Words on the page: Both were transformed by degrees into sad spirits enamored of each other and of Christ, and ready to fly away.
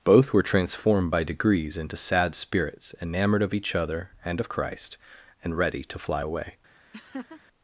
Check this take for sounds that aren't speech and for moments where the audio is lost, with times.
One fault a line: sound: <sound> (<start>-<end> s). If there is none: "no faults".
sound: laugh (6.9-7.4 s)